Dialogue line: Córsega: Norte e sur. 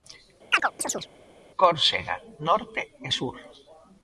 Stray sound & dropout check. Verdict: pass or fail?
fail